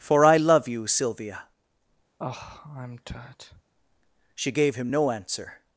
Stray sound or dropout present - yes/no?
yes